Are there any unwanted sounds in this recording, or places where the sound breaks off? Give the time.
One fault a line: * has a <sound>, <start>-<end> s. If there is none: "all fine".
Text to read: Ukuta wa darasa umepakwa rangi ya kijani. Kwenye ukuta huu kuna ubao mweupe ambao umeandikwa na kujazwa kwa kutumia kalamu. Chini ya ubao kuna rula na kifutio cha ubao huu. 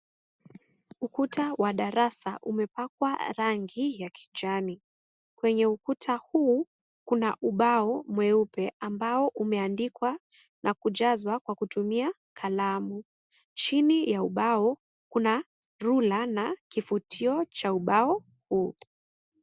all fine